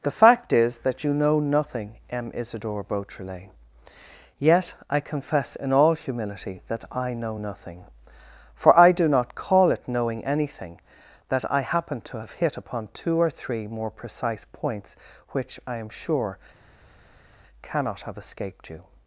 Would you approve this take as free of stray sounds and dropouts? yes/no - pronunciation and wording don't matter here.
yes